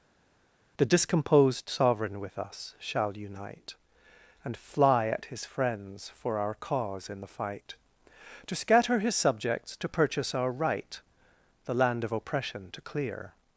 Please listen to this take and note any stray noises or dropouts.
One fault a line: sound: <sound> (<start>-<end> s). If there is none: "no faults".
no faults